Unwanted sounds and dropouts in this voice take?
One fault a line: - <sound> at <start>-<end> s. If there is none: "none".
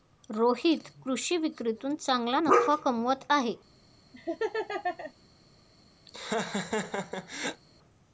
- laugh at 4.1-5.1 s
- laugh at 6.1-7.6 s